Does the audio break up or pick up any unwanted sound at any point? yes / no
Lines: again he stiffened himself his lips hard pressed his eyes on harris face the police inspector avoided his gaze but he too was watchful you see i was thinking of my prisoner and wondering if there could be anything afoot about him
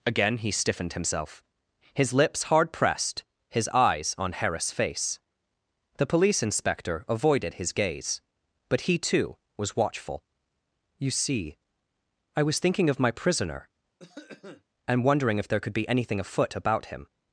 yes